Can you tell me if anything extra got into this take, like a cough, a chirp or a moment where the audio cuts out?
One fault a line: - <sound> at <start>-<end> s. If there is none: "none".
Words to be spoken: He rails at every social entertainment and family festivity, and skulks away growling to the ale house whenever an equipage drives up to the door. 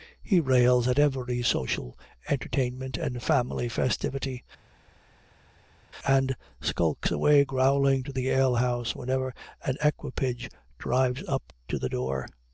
none